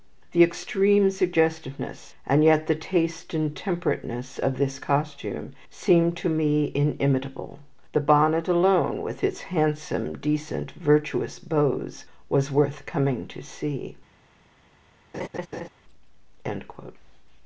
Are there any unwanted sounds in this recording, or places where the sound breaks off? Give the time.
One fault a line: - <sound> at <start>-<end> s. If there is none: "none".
- laugh at 15.1-15.7 s